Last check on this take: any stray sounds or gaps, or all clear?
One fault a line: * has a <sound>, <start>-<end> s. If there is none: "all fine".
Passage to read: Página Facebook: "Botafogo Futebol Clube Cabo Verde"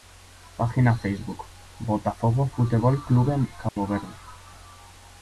* has a dropout, 3.7-3.8 s